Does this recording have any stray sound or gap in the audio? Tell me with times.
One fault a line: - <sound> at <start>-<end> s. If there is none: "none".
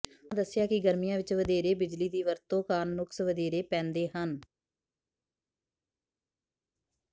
none